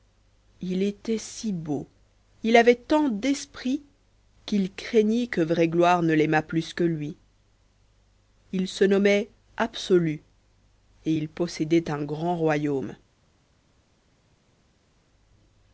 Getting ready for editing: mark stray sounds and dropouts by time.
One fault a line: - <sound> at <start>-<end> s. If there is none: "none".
none